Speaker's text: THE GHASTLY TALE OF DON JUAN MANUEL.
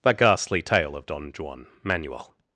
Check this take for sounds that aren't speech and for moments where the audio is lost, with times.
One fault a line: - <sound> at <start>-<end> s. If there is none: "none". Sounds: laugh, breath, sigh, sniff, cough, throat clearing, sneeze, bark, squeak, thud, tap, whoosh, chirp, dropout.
none